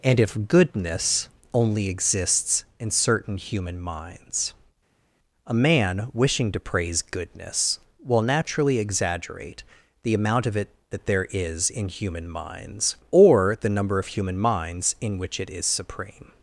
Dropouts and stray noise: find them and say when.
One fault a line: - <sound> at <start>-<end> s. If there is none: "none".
none